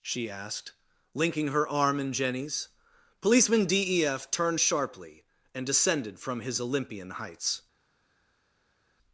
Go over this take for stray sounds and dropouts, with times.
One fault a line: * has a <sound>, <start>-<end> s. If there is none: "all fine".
all fine